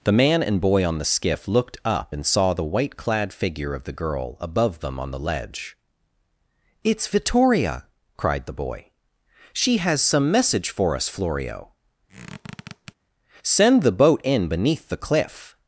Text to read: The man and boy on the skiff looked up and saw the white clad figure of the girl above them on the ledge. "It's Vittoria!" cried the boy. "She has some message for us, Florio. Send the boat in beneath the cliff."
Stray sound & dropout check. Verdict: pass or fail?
fail